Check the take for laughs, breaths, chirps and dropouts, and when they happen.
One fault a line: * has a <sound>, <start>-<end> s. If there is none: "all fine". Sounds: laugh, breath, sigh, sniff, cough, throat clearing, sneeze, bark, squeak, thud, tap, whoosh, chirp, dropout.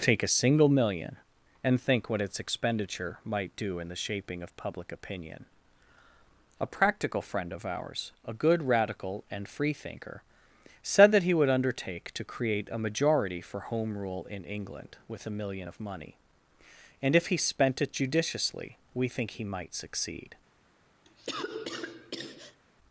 * has a cough, 21.0-22.6 s